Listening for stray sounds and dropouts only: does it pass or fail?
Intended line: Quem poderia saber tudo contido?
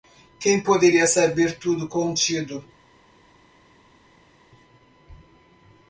pass